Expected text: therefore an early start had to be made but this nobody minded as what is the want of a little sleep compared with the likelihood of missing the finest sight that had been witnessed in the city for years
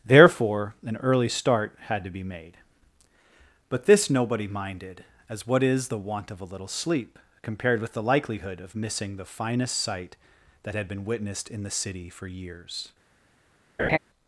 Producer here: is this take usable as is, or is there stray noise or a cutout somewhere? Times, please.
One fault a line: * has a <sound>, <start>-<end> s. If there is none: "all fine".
* has a laugh, 13.8-14.0 s